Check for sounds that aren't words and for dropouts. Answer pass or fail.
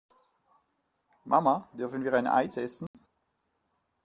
fail